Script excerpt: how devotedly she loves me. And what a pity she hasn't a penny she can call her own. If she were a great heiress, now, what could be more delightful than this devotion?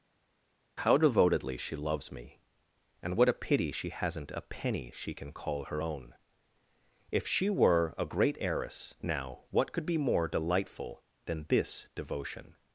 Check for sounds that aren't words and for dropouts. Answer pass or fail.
pass